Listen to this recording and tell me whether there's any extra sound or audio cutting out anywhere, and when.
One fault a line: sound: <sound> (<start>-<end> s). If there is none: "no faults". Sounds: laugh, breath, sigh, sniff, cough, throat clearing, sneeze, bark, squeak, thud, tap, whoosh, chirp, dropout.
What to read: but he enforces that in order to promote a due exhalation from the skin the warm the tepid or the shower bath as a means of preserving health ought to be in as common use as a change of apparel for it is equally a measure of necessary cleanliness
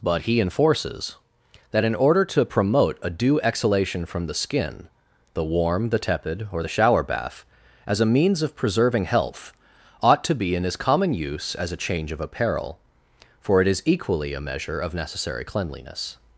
no faults